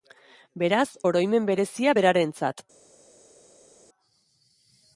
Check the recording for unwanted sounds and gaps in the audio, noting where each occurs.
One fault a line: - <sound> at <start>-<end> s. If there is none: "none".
none